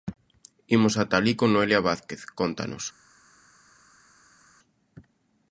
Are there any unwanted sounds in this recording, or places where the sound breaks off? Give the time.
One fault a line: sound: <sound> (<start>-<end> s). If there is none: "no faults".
no faults